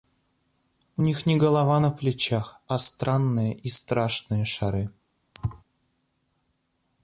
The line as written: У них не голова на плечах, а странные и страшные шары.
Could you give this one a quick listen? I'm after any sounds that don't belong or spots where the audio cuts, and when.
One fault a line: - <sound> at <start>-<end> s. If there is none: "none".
- thud at 5.3-5.6 s